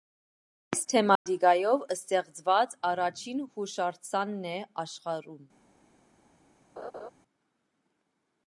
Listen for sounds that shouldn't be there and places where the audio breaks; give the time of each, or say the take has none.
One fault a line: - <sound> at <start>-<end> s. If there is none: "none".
- dropout at 1.2-1.3 s
- laugh at 6.8-7.1 s